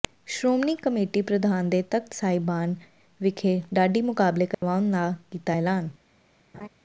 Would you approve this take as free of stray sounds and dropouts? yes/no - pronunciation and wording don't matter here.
no